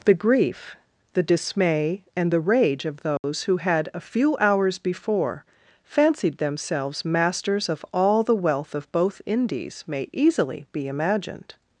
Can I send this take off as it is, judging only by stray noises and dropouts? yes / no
no